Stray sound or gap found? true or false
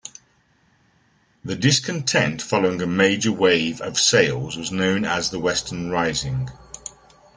false